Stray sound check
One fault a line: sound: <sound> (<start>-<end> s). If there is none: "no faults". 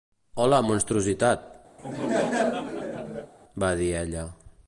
sound: laugh (1.8-3.3 s)